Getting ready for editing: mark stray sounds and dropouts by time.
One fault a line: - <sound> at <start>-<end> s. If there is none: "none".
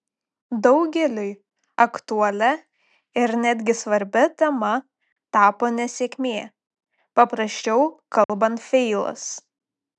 - dropout at 8.2-8.3 s